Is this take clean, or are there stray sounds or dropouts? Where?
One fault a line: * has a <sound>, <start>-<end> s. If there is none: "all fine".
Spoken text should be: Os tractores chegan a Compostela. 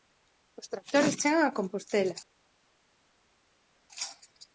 all fine